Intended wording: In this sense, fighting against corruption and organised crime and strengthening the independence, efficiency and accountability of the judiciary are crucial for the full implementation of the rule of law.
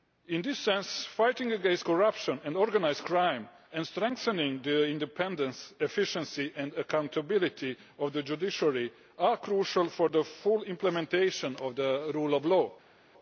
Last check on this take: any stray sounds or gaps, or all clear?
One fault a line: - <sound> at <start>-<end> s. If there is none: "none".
none